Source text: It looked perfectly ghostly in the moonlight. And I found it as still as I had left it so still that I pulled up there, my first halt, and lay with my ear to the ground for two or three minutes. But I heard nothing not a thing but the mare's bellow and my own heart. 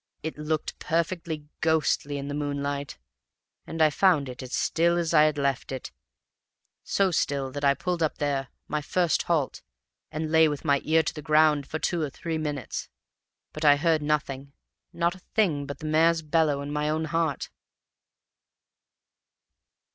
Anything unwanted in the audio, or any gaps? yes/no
no